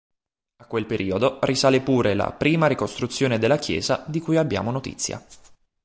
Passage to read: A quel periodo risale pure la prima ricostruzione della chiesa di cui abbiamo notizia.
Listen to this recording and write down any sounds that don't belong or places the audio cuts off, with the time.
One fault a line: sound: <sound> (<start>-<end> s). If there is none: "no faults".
no faults